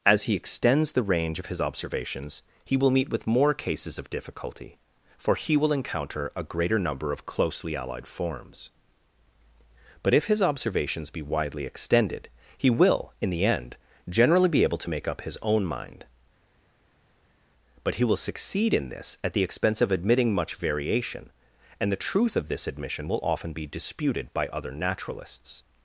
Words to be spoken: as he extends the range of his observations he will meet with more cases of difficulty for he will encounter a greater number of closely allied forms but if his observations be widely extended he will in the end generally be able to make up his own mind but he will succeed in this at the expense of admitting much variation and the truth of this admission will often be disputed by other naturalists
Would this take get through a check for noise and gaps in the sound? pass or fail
pass